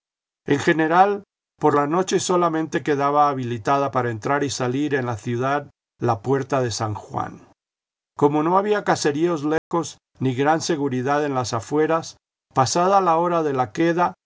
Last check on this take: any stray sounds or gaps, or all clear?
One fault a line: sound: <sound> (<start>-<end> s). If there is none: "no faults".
sound: dropout (9.6-9.7 s)